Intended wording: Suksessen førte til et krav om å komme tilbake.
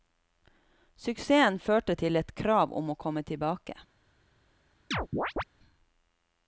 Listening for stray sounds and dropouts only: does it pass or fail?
fail